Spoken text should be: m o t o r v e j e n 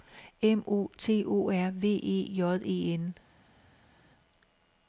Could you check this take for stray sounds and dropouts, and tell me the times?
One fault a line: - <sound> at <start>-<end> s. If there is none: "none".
none